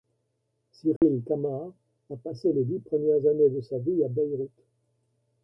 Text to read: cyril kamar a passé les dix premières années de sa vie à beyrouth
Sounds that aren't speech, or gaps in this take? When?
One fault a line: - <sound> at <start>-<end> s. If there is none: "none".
- dropout at 1.0-1.0 s